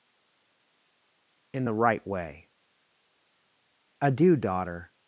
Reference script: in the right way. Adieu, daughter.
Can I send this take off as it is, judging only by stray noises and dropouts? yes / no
yes